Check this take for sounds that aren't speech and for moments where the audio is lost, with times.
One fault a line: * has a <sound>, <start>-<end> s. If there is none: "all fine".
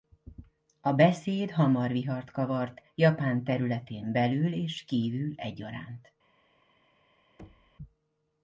* has a thud, 7.4-7.8 s